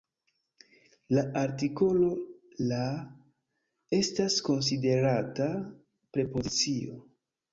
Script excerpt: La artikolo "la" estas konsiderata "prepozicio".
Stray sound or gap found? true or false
false